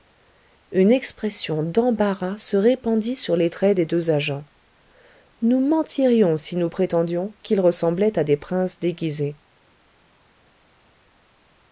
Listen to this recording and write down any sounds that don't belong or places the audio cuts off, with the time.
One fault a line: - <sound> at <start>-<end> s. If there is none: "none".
none